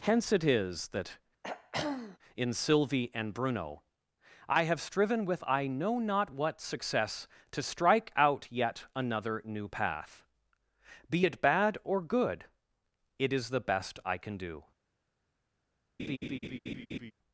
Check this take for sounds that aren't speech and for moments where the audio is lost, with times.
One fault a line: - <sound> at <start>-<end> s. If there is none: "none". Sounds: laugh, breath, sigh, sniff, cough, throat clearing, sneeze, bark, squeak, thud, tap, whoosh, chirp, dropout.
- throat clearing at 1.4-2.2 s
- laugh at 16.0-17.1 s